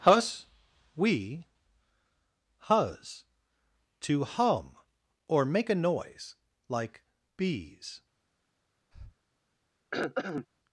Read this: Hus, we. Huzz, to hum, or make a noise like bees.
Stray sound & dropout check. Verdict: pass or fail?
fail